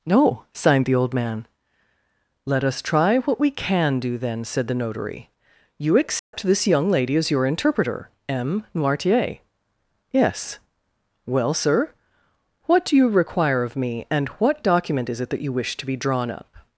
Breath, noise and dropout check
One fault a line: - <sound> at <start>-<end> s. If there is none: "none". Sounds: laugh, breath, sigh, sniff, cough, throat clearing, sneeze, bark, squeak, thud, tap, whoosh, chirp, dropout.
- dropout at 6.2-6.3 s